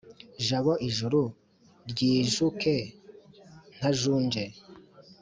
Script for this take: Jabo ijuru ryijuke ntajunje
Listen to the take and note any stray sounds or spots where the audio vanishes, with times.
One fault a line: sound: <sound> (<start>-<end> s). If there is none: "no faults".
no faults